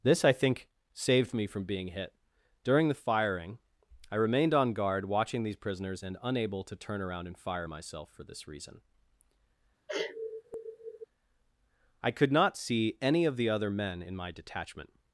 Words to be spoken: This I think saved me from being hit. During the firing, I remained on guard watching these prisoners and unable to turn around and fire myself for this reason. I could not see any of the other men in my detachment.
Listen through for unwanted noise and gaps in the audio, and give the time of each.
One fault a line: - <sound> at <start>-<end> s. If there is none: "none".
- sneeze at 9.9-11.1 s